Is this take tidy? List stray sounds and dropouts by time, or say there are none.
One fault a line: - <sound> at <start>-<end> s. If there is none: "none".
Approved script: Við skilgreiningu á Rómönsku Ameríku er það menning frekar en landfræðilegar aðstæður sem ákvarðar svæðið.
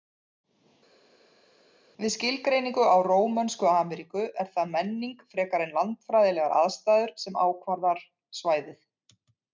none